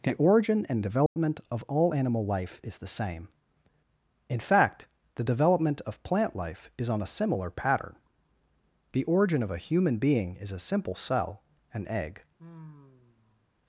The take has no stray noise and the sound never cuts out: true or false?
false